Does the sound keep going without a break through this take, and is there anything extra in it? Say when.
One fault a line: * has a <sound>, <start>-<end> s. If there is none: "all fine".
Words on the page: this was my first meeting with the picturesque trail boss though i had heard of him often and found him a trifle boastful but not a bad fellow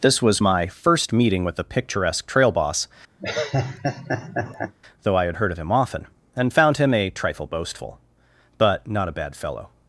* has a laugh, 3.2-4.7 s